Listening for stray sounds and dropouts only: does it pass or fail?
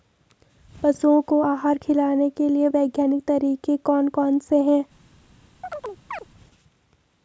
fail